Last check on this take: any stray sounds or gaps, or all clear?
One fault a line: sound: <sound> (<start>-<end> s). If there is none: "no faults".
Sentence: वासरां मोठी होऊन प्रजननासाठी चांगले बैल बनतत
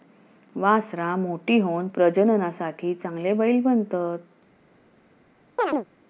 sound: chirp (5.6-5.9 s)